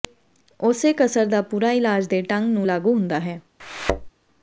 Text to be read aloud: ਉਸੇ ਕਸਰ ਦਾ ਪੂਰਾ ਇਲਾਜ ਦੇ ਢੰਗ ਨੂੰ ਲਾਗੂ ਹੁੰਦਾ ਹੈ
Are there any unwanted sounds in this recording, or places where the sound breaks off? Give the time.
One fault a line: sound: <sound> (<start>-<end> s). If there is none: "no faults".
sound: thud (3.6-4.1 s)